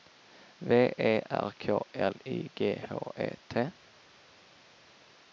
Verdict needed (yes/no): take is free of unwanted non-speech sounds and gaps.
yes